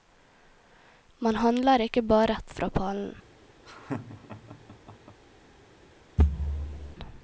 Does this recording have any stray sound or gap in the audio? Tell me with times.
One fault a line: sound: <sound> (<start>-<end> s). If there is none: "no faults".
sound: laugh (3.6-5.2 s)
sound: thud (6.2-7.0 s)